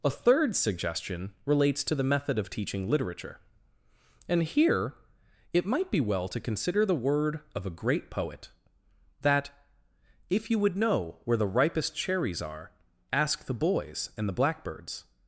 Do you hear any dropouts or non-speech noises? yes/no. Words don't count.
no